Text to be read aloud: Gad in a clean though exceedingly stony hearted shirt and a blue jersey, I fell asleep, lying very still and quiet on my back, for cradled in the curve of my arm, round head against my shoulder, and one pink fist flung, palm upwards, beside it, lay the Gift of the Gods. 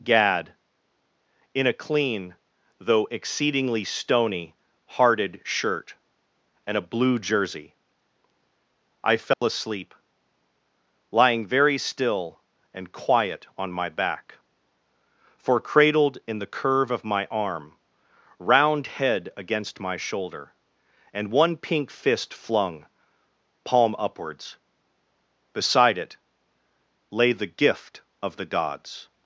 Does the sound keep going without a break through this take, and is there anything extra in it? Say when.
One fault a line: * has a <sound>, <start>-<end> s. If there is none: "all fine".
* has a dropout, 9.3-9.4 s